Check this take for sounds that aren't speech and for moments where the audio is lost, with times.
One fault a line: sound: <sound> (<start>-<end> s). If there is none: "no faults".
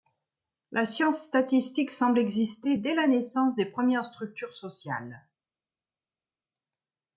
no faults